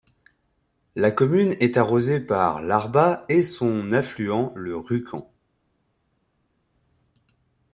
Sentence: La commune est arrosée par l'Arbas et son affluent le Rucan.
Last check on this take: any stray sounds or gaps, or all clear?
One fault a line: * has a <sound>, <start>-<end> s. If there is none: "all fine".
all fine